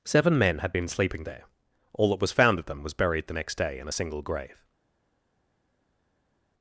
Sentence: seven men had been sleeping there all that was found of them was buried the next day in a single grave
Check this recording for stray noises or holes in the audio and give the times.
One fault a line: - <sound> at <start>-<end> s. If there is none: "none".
none